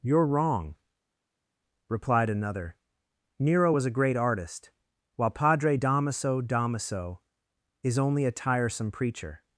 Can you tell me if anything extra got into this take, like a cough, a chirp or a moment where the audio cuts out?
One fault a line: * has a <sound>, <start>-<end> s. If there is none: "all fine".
all fine